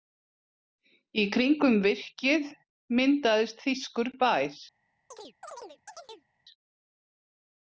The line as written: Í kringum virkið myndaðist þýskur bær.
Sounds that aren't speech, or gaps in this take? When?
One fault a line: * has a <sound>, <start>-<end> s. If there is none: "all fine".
* has a chirp, 5.1-6.3 s